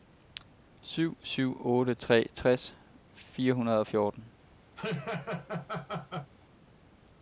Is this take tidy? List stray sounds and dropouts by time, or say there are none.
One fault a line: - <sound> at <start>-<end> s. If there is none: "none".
- laugh at 4.8-6.3 s